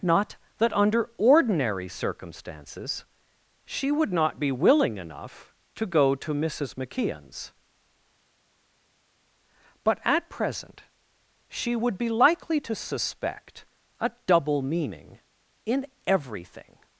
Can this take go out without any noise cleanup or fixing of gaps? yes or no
yes